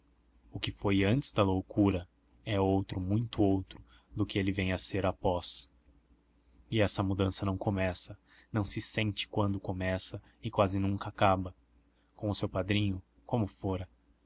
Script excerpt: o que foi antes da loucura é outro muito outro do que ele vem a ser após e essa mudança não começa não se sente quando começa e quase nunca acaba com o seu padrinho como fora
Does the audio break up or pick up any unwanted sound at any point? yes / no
no